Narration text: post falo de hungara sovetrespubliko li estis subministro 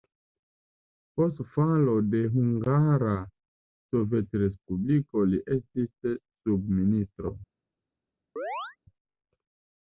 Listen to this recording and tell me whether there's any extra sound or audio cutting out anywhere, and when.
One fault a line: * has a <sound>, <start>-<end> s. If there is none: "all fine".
* has a chirp, 8.4-8.8 s